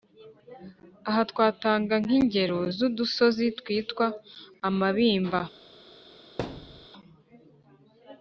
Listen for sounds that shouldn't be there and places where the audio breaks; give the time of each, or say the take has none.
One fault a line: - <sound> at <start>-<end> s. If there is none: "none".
- thud at 6.4-6.9 s